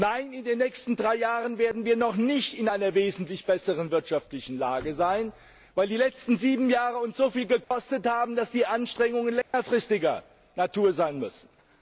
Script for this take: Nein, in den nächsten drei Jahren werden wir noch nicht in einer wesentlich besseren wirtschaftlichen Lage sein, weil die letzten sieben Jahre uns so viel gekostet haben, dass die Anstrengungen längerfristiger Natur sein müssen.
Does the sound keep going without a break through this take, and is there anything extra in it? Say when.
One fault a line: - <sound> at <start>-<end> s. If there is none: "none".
- dropout at 7.6-7.7 s
- dropout at 9.4-9.5 s